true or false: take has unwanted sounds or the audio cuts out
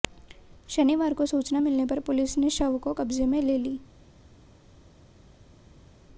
false